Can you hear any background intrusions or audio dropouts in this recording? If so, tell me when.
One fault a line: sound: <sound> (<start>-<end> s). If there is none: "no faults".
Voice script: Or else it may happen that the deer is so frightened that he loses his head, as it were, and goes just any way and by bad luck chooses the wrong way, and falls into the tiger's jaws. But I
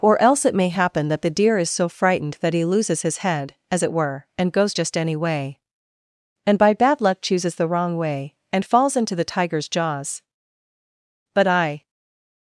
no faults